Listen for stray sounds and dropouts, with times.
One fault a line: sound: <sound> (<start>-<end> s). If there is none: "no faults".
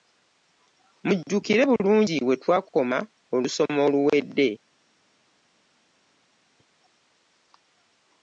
no faults